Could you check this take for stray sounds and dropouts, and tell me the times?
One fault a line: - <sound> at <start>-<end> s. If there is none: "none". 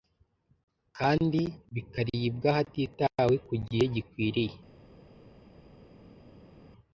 none